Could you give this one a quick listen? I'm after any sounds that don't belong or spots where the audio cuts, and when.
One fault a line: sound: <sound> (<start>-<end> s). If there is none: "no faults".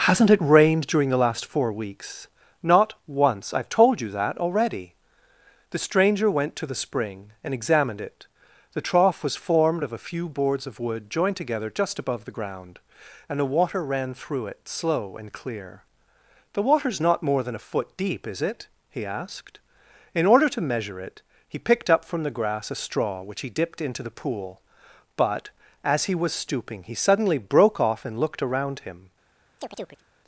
sound: chirp (29.6-30.0 s)